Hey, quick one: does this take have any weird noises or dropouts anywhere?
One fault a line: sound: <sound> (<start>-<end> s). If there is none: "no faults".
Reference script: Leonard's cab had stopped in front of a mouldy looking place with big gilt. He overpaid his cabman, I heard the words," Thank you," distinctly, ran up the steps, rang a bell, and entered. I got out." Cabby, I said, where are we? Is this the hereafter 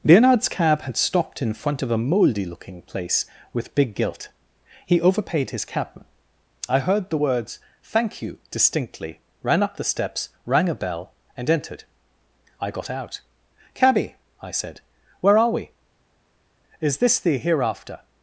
no faults